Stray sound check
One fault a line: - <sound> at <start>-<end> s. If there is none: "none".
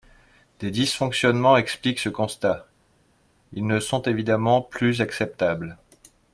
none